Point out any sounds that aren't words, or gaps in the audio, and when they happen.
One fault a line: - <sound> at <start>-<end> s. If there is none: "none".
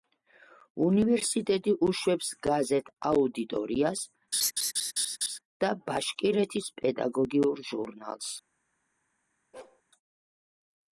- laugh at 4.3-5.4 s
- bark at 9.5-9.8 s